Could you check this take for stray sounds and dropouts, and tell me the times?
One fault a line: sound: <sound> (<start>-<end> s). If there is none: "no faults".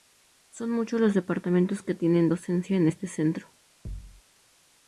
sound: thud (3.8-4.2 s)